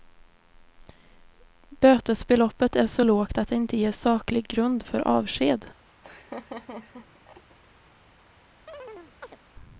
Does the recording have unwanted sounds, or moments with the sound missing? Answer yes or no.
yes